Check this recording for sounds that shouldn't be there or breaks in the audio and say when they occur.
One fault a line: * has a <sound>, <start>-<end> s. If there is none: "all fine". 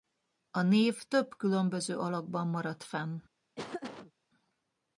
* has a laugh, 3.6-4.1 s